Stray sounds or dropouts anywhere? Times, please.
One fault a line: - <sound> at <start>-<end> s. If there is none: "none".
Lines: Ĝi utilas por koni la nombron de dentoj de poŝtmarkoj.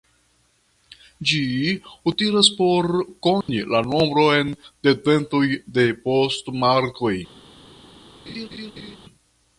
- dropout at 3.4-3.5 s
- laugh at 8.3-9.0 s